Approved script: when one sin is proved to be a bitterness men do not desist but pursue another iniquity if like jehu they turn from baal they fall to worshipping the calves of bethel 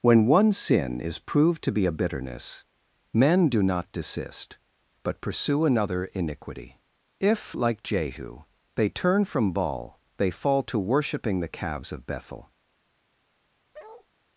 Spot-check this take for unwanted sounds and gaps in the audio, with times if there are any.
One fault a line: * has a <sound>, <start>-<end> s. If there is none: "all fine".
* has a bark, 13.7-14.1 s